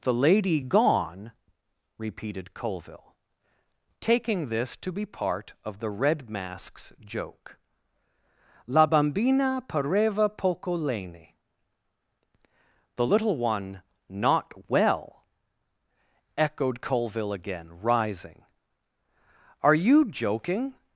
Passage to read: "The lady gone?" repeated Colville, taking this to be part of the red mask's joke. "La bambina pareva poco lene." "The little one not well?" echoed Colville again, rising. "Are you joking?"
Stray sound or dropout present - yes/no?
no